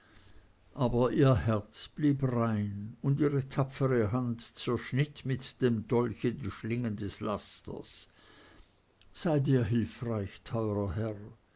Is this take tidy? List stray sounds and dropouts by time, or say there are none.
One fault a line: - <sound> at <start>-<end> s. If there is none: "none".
none